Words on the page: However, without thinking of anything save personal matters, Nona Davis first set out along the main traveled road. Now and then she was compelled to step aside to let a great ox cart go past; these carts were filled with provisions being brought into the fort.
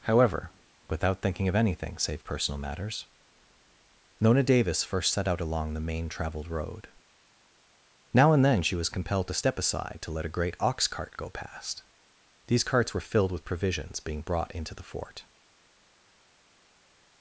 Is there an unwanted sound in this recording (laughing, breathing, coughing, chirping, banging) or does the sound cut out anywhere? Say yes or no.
no